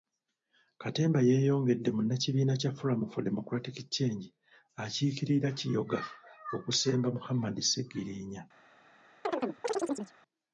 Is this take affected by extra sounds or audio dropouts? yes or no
yes